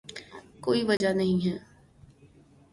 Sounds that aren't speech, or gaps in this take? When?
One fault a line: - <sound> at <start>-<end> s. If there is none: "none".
- dropout at 1.0-1.0 s